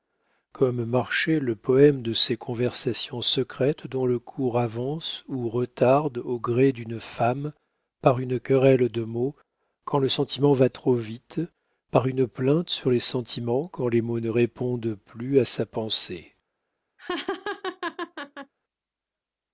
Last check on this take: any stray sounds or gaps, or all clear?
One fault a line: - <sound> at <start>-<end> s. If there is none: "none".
- laugh at 17.0-18.5 s